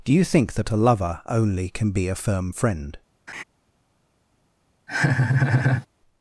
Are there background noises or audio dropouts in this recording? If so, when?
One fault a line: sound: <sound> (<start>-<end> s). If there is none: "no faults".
sound: laugh (3.3-3.4 s)
sound: laugh (4.9-5.9 s)